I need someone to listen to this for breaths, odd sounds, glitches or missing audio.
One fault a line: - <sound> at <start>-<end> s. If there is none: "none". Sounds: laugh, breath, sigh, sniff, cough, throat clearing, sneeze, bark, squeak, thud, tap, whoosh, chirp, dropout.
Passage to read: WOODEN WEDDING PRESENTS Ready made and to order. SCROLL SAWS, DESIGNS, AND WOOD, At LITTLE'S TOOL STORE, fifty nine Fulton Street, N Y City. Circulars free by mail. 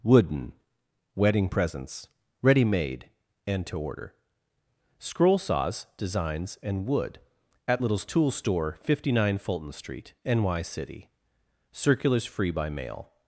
none